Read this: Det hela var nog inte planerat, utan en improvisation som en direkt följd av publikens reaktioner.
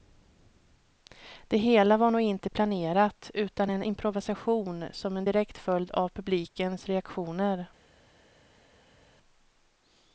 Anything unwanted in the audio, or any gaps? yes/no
no